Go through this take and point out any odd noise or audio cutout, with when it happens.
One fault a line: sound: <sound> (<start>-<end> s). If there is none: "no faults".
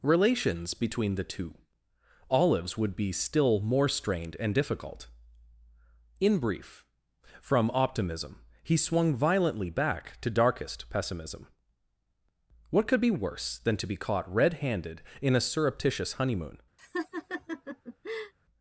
sound: laugh (16.8-18.3 s)